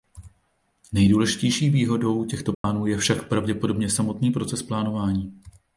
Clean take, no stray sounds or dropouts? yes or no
no